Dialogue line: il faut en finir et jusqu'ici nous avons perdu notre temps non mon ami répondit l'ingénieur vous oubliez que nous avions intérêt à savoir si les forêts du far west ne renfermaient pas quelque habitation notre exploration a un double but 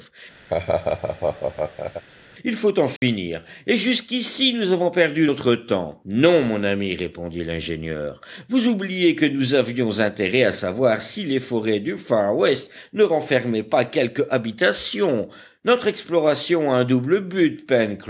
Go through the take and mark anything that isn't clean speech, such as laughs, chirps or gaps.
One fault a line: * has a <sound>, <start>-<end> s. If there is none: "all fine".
* has a laugh, 0.5-2.0 s
* has a dropout, 3.0-3.0 s